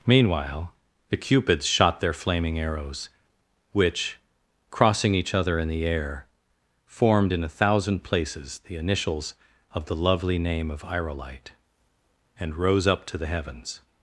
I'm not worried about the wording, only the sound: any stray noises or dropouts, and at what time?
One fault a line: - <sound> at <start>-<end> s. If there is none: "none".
none